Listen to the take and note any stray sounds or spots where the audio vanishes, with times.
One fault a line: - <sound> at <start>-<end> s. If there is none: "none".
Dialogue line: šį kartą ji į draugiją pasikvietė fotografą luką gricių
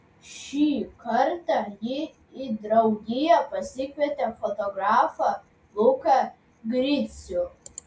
none